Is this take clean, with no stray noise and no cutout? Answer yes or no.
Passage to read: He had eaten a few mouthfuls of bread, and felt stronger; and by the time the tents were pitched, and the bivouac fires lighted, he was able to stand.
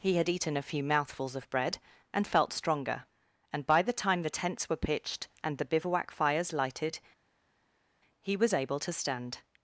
yes